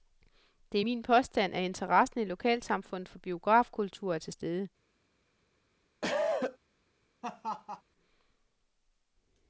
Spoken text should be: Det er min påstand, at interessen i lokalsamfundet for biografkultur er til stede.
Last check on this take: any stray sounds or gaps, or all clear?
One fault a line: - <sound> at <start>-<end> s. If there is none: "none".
- cough at 6.0-6.6 s
- laugh at 7.2-7.8 s